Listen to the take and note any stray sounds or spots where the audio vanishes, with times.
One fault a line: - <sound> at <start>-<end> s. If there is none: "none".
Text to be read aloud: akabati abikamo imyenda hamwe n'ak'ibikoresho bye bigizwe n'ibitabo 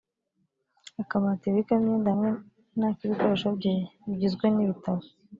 none